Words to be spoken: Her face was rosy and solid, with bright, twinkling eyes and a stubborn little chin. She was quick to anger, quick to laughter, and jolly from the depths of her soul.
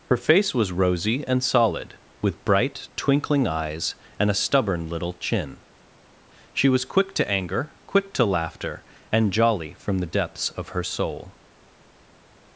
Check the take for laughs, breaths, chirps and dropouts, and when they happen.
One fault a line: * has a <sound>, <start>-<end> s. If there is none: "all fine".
all fine